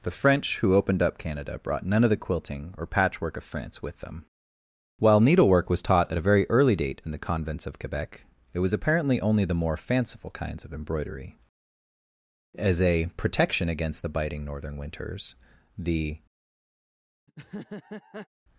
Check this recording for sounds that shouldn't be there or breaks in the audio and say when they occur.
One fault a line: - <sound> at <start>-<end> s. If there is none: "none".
- laugh at 17.3-18.3 s